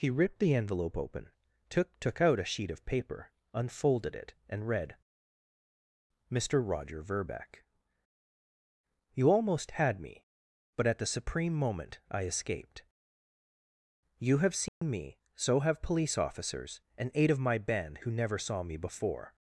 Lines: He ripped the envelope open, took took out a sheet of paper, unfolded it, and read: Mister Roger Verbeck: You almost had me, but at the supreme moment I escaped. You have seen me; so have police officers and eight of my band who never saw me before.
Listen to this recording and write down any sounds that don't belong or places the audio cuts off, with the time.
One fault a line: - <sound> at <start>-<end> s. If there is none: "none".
- dropout at 14.7-14.8 s